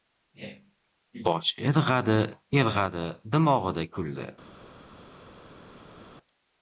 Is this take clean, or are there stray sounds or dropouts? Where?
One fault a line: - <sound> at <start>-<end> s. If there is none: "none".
none